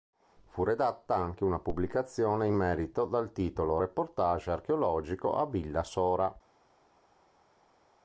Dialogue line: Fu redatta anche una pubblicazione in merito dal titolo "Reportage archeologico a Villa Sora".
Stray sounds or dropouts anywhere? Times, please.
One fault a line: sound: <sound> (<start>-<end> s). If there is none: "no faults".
no faults